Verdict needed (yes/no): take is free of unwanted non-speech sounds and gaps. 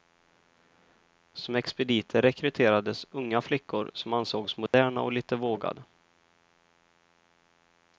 no